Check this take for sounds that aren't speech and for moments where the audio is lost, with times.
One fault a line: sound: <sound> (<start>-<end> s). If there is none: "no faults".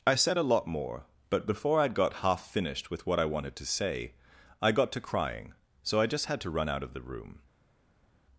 no faults